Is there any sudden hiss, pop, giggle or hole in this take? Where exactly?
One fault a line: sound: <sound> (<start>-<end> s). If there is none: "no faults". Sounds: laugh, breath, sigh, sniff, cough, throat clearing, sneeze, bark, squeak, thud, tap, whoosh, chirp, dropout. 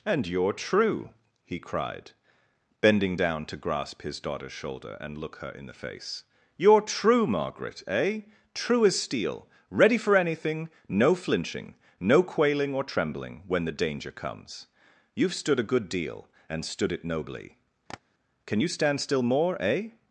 sound: tap (17.9-18.0 s)